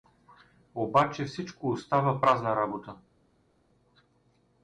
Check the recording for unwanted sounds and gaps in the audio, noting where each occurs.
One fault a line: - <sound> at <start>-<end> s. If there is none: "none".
none